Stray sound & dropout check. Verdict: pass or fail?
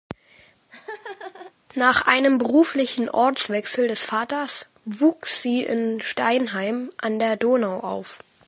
fail